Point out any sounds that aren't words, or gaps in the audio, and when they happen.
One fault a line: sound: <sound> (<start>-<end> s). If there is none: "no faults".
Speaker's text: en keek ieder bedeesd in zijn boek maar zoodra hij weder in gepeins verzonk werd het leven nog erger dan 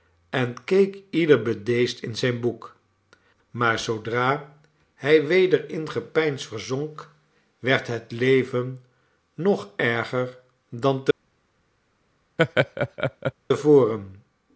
sound: laugh (12.4-13.3 s)